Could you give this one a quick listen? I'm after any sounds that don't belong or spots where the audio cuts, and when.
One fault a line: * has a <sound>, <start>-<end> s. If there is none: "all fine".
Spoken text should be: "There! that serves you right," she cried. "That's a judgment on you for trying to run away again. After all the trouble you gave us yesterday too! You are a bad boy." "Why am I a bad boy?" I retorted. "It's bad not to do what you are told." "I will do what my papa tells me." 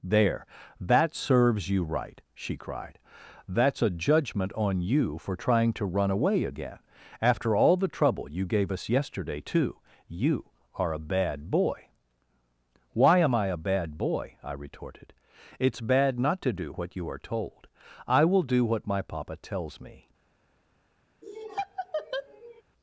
* has a laugh, 21.2-22.6 s